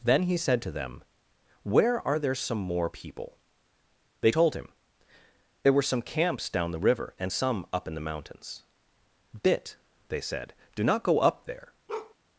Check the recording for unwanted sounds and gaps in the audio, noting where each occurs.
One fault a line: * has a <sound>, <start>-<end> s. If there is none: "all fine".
* has a bark, 11.9-12.1 s